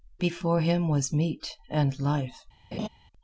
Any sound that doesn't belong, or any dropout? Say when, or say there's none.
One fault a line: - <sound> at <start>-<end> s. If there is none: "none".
- laugh at 2.7-2.9 s